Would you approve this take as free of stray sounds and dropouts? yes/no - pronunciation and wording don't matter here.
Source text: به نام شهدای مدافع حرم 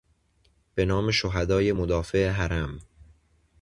yes